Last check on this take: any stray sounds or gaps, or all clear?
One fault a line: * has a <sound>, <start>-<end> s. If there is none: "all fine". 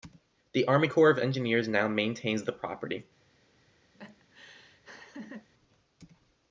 * has a laugh, 3.9-5.5 s